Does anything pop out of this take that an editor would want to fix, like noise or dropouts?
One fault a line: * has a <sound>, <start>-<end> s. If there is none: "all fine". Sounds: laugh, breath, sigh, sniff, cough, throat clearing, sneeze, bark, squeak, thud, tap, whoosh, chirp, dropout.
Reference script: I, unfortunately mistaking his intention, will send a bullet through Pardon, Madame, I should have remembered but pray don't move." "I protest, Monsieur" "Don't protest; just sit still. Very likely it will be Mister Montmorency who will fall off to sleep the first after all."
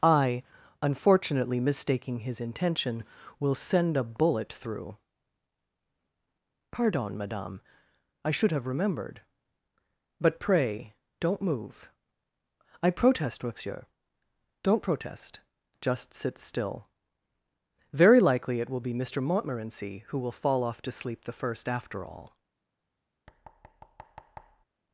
* has a thud, 23.3-24.7 s